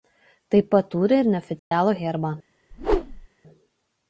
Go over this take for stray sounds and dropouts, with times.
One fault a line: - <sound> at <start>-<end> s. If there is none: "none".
- dropout at 1.6-1.7 s
- whoosh at 2.7-3.3 s